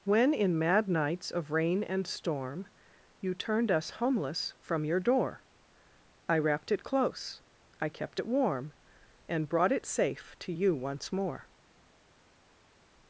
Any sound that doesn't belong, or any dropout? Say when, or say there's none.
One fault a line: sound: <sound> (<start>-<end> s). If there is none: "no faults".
no faults